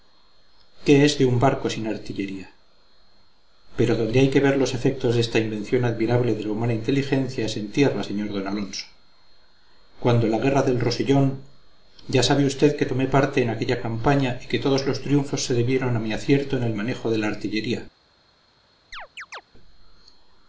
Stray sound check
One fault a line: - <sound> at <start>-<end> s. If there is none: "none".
- chirp at 18.9-19.4 s